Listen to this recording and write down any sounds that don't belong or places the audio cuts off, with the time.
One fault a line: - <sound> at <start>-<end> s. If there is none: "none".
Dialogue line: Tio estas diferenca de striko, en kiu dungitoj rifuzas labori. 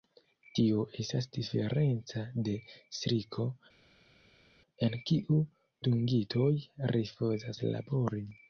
none